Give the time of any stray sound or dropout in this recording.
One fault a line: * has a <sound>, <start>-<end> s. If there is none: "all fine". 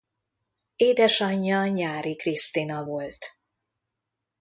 all fine